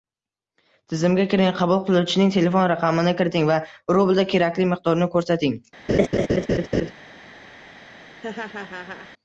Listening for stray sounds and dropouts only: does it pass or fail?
fail